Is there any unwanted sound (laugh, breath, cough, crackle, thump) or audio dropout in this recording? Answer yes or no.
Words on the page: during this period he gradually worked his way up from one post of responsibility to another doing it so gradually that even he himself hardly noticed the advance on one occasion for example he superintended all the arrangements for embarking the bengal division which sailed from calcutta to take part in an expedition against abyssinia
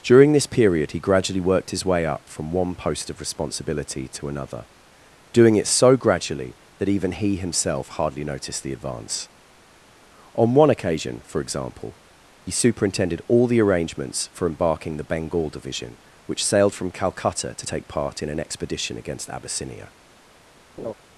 yes